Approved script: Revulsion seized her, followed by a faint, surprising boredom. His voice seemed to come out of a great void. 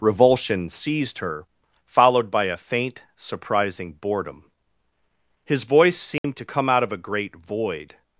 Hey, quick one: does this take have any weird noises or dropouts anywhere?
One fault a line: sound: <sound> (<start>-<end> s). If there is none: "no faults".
sound: dropout (6.2-6.2 s)